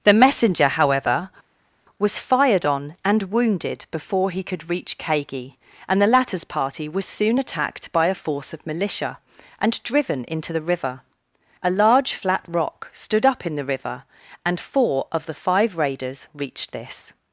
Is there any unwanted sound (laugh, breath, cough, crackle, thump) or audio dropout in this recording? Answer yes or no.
no